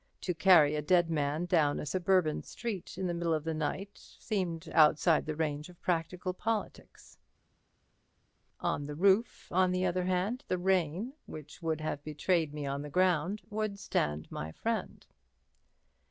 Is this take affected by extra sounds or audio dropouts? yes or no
no